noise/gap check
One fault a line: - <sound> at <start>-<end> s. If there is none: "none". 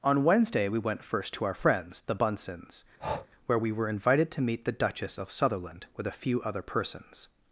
- breath at 3.0-3.3 s